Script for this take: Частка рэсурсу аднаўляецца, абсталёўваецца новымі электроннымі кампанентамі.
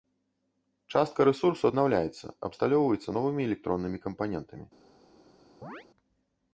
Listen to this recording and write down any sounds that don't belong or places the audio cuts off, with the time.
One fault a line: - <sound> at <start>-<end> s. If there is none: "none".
- chirp at 5.6-5.9 s